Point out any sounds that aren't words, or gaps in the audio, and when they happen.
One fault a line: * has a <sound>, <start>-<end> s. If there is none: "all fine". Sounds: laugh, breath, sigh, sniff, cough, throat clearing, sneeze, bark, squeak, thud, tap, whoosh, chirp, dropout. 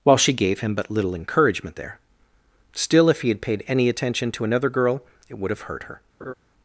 * has a laugh, 6.2-6.3 s